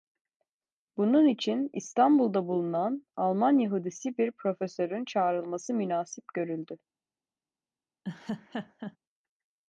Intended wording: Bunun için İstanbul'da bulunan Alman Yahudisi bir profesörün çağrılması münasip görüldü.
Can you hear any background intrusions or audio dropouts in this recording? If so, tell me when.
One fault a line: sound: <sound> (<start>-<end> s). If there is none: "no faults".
sound: laugh (8.0-9.0 s)